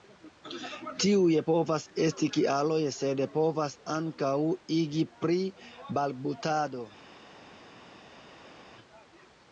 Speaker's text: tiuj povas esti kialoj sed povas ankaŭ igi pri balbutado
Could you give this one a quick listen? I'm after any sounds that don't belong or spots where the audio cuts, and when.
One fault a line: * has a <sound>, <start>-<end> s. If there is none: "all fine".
all fine